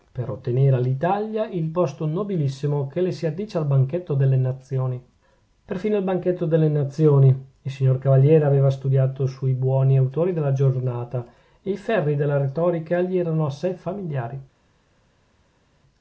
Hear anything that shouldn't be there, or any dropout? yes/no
no